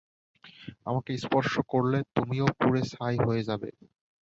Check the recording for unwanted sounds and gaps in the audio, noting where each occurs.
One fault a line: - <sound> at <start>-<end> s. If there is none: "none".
none